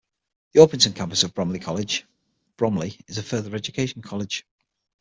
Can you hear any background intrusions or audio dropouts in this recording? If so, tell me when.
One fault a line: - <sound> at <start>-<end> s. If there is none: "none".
none